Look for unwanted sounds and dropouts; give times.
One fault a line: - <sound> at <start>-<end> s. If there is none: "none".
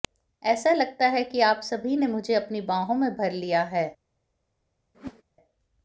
- whoosh at 4.9-5.2 s